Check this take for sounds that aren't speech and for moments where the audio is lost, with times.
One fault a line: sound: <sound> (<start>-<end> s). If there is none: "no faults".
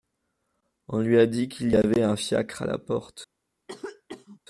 sound: cough (3.7-4.4 s)